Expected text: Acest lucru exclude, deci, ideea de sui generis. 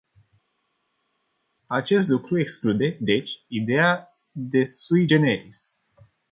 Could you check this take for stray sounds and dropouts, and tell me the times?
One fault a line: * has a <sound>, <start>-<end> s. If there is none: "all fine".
all fine